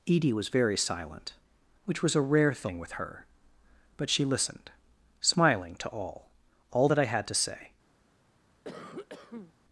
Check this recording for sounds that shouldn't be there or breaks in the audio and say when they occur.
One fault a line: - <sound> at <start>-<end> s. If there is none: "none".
- cough at 8.6-9.5 s